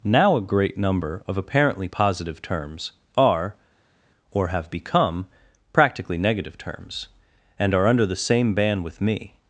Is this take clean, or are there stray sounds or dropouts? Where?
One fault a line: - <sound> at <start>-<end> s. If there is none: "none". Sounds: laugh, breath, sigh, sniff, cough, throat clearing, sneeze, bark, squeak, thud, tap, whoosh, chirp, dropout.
none